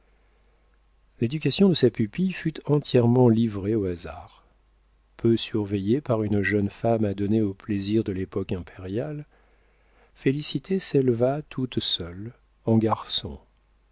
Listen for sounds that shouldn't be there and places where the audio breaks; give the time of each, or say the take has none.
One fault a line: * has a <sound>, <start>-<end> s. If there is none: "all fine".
all fine